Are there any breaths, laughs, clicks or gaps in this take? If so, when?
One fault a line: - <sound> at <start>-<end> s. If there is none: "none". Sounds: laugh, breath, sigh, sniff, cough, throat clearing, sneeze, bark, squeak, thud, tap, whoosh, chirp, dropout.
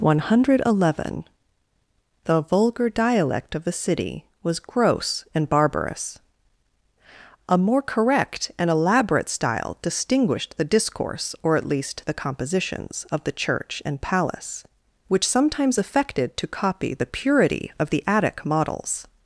none